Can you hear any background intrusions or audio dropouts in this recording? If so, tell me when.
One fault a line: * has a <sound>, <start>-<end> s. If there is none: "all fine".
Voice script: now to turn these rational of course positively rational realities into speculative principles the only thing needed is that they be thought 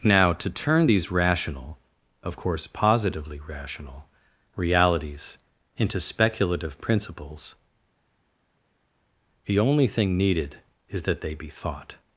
all fine